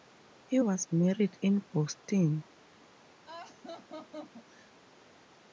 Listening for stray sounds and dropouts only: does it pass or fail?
fail